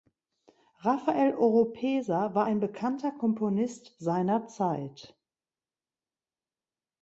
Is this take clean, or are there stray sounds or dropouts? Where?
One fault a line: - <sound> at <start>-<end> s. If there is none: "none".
none